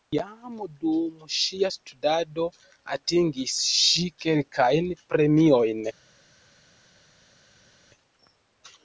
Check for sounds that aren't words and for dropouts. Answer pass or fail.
pass